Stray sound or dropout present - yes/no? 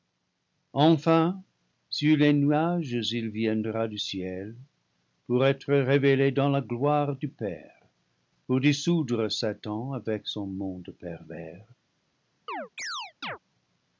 yes